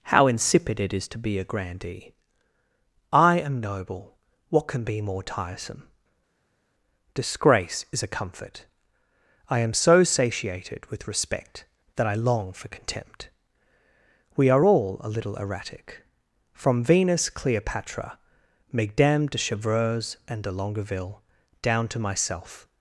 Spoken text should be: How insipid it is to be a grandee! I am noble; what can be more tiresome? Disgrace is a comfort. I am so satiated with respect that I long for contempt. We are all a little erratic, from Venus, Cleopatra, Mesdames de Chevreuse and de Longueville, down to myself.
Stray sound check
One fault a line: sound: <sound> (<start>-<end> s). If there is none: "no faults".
no faults